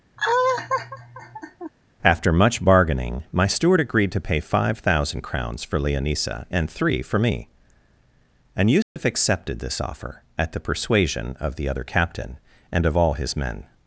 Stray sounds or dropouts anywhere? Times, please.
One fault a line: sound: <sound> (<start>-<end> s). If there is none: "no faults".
sound: laugh (0.2-1.7 s)
sound: dropout (8.8-9.0 s)